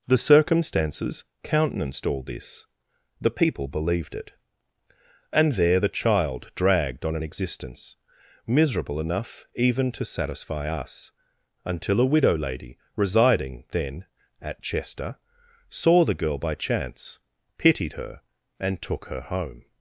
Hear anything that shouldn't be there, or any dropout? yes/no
no